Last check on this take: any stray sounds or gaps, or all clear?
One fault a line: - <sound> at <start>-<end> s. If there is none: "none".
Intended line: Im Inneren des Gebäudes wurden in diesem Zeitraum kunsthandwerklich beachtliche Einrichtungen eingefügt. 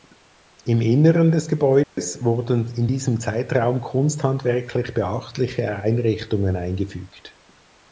- dropout at 1.8-2.0 s